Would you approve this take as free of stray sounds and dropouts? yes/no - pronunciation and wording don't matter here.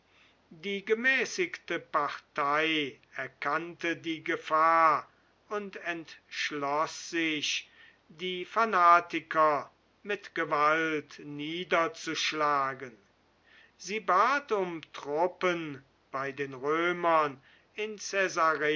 yes